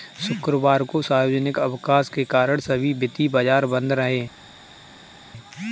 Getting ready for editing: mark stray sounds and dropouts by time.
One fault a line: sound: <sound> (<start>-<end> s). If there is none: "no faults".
no faults